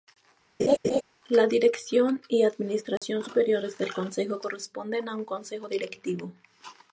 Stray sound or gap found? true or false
true